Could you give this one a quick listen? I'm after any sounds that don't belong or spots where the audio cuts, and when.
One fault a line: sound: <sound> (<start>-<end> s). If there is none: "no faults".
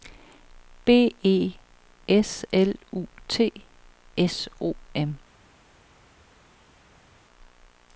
no faults